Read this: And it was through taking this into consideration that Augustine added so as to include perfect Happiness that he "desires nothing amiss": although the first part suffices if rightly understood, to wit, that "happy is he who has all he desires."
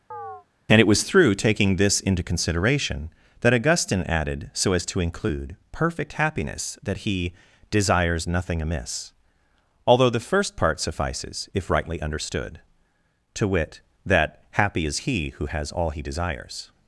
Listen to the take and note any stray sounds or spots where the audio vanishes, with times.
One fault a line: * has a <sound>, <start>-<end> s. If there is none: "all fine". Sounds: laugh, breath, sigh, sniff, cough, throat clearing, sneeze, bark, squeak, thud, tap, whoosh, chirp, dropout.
* has a chirp, 0.1-0.5 s